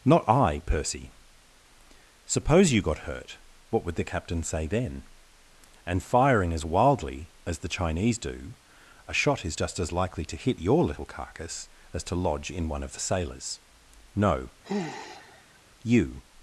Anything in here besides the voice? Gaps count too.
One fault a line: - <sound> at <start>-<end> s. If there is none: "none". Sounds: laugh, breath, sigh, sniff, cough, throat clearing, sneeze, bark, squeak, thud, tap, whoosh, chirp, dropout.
- sigh at 14.6-15.6 s